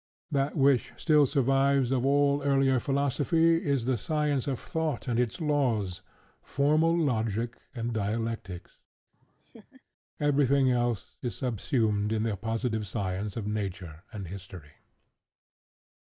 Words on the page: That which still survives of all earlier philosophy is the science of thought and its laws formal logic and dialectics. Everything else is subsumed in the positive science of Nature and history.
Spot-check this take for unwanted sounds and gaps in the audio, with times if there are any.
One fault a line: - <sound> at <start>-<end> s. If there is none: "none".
- laugh at 9.1-9.8 s